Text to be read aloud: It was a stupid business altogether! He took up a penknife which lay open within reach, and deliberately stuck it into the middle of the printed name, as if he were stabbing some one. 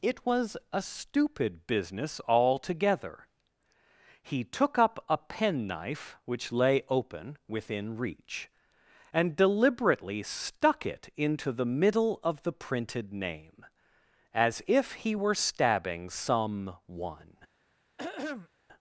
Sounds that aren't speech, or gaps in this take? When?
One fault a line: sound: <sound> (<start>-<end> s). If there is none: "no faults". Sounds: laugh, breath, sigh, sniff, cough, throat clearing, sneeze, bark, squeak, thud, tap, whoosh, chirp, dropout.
sound: throat clearing (18.0-18.5 s)